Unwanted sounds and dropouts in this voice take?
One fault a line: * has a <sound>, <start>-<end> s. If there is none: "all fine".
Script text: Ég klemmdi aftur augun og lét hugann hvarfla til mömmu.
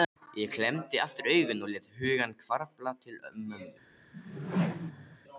* has a whoosh, 4.1-5.2 s